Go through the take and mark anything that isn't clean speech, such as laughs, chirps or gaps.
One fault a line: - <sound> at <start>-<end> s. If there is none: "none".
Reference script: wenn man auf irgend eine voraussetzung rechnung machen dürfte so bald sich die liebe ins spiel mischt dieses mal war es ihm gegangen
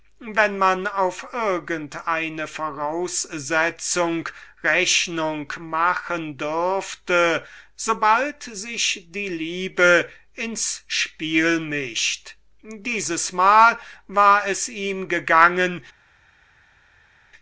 none